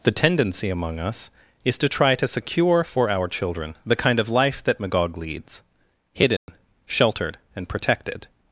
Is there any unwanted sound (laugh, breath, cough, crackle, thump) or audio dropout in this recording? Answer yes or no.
yes